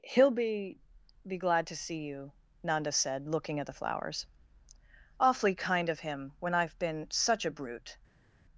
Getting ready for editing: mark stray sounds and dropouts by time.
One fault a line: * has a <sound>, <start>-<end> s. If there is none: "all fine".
all fine